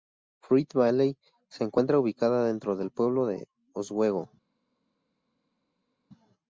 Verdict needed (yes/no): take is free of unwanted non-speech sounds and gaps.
yes